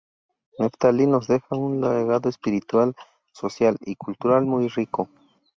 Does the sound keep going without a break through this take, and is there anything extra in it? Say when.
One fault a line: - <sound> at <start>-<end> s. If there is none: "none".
none